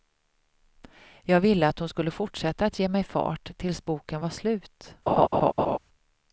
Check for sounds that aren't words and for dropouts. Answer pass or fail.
fail